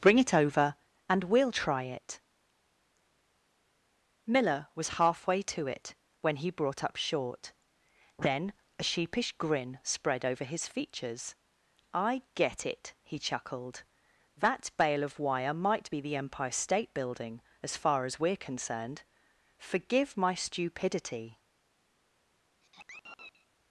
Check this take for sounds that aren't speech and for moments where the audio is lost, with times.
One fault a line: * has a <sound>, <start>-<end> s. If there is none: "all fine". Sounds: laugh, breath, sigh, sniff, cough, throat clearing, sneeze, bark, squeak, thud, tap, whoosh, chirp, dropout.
* has a sigh, 22.6-23.5 s